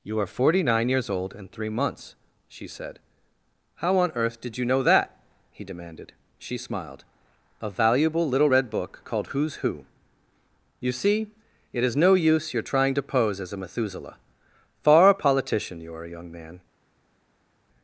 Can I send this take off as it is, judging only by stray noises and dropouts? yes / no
yes